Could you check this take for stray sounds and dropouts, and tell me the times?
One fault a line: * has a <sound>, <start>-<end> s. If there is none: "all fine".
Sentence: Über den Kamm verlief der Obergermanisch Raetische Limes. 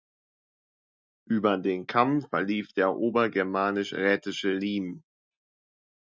all fine